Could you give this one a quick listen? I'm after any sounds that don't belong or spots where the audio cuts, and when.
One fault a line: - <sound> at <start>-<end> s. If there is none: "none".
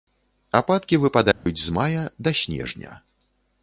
- dropout at 1.3-1.5 s